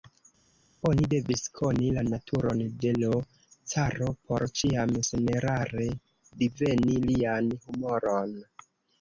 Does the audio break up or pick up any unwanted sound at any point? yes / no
no